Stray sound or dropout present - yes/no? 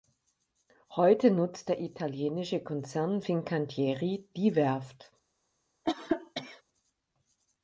yes